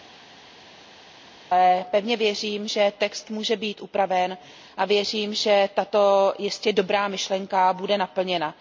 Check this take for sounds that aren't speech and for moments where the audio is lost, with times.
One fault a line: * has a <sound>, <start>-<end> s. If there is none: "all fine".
all fine